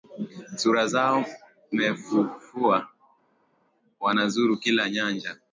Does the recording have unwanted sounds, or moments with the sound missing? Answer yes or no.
no